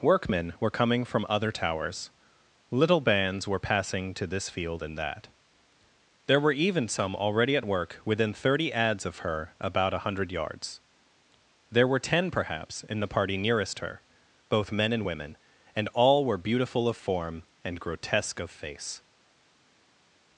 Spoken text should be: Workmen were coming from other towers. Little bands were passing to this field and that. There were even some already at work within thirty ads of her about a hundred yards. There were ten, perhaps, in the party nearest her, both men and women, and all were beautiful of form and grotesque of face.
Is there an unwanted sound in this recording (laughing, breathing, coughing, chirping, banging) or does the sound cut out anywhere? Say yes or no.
no